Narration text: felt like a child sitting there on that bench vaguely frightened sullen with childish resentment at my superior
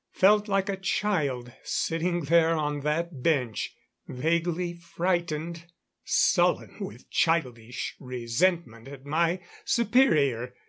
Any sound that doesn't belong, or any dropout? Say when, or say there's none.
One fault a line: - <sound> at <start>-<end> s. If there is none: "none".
none